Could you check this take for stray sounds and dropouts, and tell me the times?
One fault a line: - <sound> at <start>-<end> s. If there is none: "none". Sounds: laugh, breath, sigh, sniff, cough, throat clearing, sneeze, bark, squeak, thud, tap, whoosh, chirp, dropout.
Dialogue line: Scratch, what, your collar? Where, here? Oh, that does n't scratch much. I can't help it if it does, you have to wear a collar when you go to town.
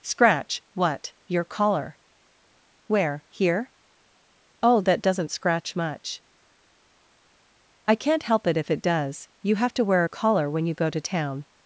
none